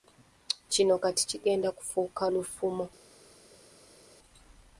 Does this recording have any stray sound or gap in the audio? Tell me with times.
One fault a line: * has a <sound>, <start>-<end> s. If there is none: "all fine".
all fine